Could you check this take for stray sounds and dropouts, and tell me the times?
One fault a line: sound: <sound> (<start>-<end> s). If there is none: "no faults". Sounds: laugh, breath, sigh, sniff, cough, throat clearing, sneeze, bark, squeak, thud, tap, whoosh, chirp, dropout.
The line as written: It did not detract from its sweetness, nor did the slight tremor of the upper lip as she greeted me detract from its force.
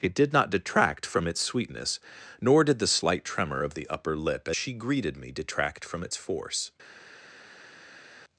no faults